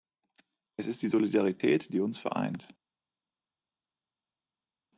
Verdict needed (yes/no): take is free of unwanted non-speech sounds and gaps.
yes